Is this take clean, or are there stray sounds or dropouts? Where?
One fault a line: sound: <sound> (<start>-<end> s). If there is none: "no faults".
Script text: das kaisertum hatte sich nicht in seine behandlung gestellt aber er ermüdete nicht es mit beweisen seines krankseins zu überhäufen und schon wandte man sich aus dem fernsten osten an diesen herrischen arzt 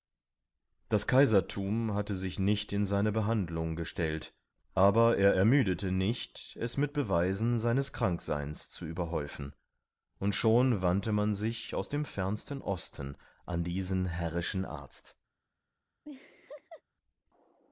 sound: laugh (16.0-16.8 s)